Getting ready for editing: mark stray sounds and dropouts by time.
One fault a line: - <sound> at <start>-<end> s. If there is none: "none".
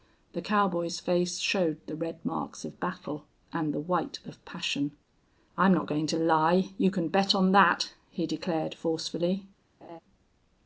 - laugh at 9.8-10.0 s